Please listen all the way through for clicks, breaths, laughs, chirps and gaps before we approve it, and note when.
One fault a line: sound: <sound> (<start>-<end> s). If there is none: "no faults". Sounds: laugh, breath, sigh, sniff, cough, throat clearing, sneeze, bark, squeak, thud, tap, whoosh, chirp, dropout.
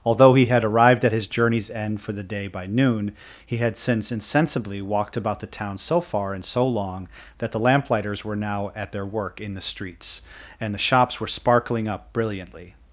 no faults